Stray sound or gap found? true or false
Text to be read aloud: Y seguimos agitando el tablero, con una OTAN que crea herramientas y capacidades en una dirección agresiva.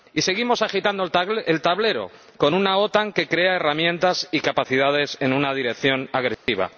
true